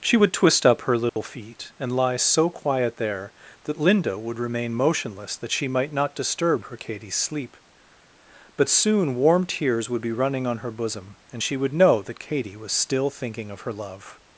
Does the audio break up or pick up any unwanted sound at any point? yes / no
yes